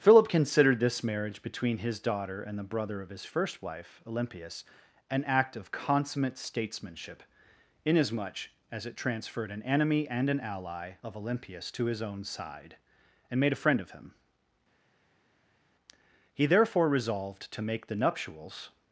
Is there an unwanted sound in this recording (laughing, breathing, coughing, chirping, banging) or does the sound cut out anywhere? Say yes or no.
no